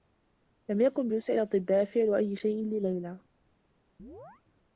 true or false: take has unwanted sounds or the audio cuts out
true